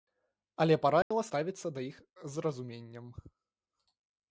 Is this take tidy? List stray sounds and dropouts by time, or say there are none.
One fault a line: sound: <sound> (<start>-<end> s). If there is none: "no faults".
sound: dropout (1.0-1.1 s)